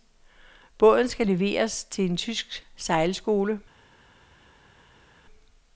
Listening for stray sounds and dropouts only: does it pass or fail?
pass